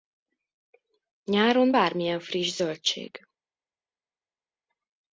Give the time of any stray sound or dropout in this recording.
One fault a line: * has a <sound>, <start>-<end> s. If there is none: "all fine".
all fine